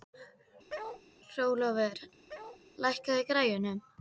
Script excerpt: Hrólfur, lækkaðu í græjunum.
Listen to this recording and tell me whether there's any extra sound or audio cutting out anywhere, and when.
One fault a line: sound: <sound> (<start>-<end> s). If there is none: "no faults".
sound: bark (0.7-1.0 s)
sound: bark (2.3-2.6 s)